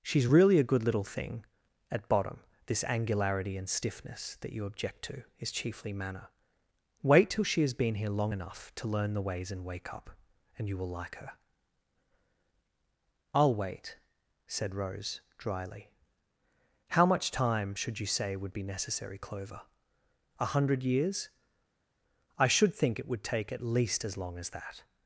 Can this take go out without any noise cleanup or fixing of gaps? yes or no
yes